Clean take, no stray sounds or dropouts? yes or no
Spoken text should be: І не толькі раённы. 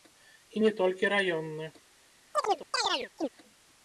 no